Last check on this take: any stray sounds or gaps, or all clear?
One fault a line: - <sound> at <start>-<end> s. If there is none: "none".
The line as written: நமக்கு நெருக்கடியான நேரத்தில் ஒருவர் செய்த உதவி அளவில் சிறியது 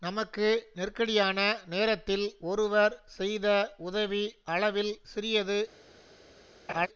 - laugh at 6.7-6.9 s